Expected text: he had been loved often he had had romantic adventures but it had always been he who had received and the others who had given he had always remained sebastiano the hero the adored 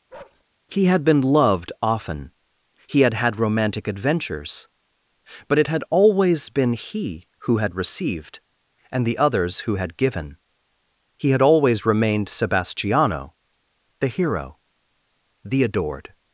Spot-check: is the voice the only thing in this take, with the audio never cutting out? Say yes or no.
no